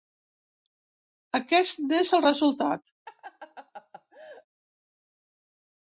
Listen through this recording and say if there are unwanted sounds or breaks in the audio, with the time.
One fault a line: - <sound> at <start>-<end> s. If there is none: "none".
- laugh at 3.1-4.5 s